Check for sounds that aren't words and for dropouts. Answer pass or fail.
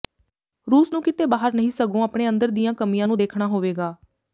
pass